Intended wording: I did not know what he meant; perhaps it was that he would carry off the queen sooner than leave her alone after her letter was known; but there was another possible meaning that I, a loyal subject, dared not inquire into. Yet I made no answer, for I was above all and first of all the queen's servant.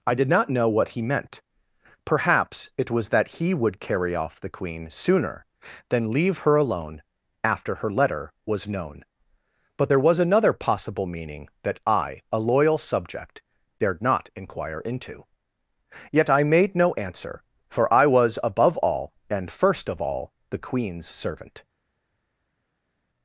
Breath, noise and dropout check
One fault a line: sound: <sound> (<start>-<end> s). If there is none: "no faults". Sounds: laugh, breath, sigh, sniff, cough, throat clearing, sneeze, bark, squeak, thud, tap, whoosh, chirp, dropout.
no faults